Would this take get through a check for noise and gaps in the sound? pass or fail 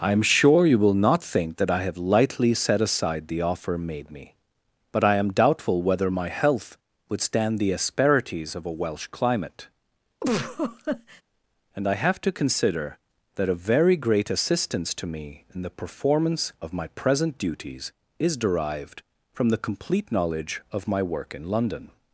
fail